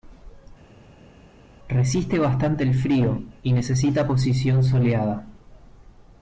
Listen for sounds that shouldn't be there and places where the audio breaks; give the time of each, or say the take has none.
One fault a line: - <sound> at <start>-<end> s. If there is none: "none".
none